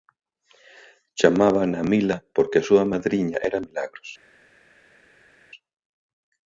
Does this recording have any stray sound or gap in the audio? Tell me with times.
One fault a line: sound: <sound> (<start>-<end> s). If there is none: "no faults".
no faults